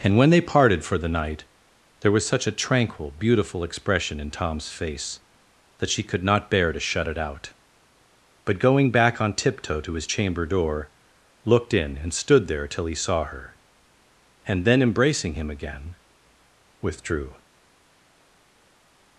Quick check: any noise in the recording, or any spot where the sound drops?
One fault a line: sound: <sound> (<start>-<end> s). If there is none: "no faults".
no faults